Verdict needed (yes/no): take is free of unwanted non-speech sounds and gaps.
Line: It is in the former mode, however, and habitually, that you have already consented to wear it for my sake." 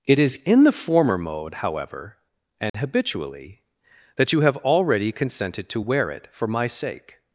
no